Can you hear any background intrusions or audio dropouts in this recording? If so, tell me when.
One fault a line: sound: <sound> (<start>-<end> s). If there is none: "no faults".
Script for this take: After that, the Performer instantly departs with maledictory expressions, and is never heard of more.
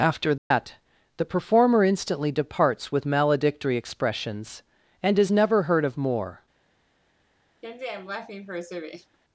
sound: dropout (0.4-0.5 s)
sound: laugh (7.6-9.2 s)